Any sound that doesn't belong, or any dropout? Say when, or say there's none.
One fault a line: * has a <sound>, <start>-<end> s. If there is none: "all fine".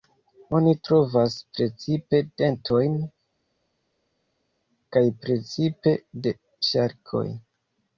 all fine